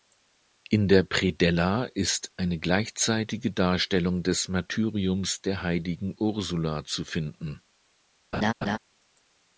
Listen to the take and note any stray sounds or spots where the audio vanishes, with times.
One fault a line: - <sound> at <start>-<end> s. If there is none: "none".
- laugh at 8.3-8.8 s